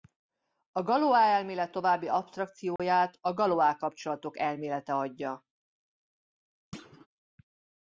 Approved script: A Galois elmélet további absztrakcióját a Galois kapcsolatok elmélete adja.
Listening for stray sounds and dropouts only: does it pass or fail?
fail